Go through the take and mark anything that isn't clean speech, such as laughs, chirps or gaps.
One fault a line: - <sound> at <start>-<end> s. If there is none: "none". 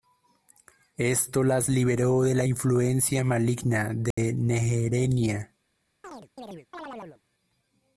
- dropout at 4.1-4.2 s
- chirp at 6.0-7.2 s